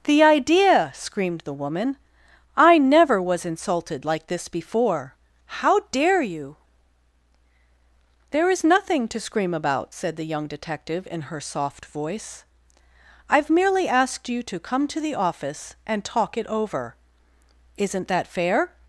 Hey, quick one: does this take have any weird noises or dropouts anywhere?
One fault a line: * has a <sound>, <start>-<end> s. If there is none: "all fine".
all fine